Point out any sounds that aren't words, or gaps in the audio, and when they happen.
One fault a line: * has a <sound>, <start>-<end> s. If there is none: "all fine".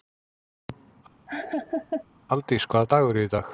* has a laugh, 1.3-2.0 s